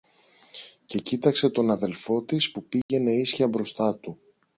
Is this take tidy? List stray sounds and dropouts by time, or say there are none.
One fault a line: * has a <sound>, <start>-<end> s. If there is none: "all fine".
* has a dropout, 2.8-2.9 s